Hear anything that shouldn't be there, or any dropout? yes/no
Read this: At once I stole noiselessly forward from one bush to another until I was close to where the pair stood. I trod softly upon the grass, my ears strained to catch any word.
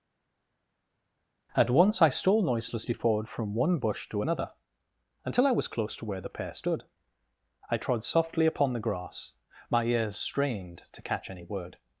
no